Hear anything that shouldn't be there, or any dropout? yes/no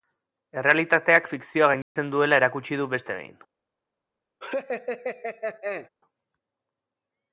yes